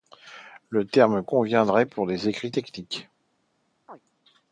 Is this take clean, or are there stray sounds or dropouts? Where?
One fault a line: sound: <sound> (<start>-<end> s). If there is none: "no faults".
sound: chirp (3.9-4.0 s)